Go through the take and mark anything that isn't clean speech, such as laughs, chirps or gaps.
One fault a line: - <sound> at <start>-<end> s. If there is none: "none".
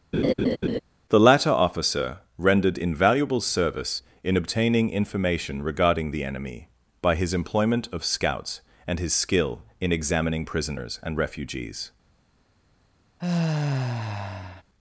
- laugh at 0.1-0.8 s
- sigh at 13.2-14.6 s